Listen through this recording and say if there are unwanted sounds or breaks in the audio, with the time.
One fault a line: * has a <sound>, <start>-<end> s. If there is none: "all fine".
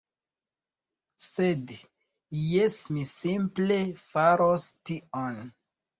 all fine